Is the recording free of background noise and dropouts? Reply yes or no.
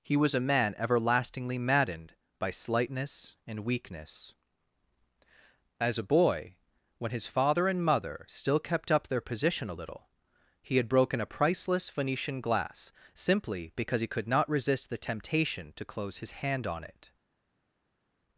yes